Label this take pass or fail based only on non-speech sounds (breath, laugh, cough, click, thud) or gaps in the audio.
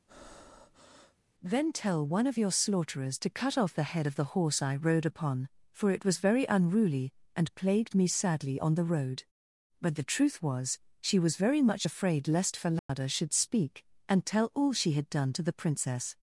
fail